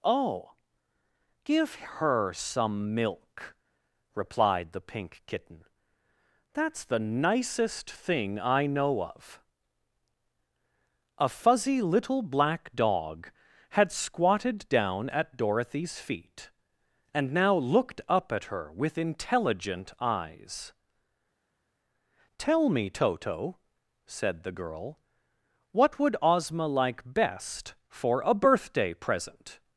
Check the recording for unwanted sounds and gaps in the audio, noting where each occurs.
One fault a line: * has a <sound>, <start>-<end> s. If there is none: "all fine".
all fine